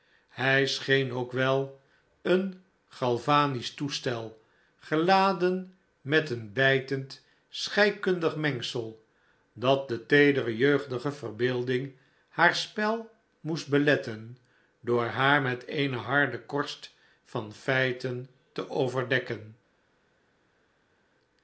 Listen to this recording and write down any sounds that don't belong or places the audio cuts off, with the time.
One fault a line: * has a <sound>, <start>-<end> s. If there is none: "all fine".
all fine